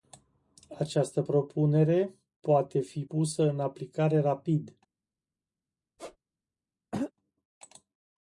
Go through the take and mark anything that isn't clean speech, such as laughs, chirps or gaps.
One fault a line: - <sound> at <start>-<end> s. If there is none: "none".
- squeak at 6.0-6.2 s
- throat clearing at 6.9-7.1 s